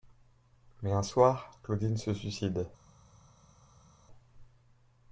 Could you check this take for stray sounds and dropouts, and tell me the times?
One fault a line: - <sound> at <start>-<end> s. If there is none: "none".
none